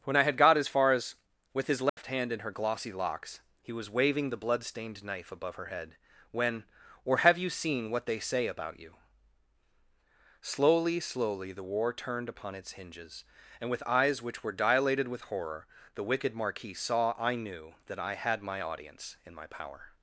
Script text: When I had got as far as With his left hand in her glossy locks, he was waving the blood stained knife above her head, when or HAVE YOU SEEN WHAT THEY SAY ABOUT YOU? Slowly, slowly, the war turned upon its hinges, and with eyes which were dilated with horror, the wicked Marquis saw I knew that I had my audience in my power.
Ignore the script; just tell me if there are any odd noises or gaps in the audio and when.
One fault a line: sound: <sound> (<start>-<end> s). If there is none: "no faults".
sound: dropout (1.9-2.0 s)